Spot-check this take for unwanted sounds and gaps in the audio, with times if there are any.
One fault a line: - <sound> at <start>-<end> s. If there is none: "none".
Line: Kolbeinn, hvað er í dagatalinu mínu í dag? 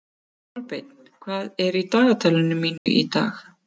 - dropout at 2.8-2.9 s